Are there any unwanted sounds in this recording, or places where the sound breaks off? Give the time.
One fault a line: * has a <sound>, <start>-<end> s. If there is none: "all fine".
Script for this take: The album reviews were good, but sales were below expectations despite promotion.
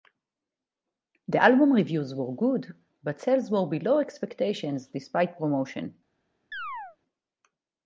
* has a chirp, 6.5-7.0 s